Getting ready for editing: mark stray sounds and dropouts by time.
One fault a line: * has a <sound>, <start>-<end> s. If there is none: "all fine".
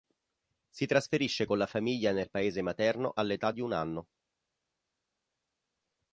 all fine